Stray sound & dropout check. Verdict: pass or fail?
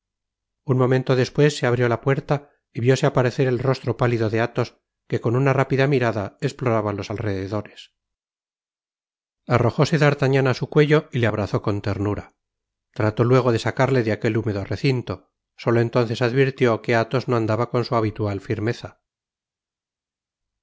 pass